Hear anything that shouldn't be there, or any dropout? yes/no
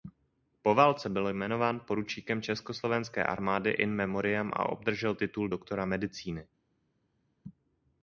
no